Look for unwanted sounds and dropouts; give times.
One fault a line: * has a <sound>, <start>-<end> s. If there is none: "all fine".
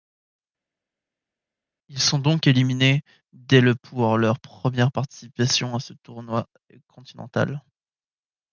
all fine